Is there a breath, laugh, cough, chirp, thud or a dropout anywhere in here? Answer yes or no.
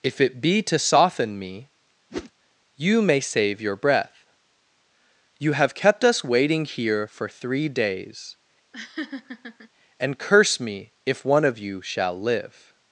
yes